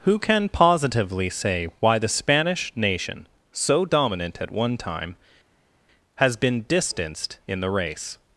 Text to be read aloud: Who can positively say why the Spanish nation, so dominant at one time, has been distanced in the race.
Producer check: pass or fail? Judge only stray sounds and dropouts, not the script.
pass